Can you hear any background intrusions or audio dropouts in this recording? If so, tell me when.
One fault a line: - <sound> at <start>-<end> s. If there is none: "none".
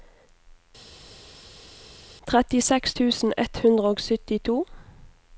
none